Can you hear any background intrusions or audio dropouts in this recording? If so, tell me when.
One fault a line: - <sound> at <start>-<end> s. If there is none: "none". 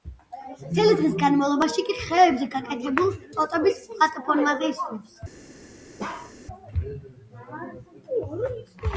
- bark at 6.0-6.4 s